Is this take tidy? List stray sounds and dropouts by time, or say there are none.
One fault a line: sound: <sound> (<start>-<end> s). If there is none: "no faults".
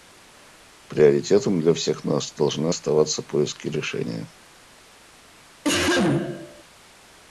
sound: cough (5.6-6.6 s)